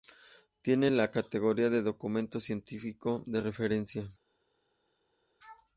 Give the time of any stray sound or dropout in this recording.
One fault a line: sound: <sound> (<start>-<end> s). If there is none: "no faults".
no faults